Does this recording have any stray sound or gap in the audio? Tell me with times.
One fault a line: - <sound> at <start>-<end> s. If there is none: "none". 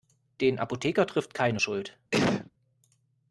- sneeze at 2.1-2.5 s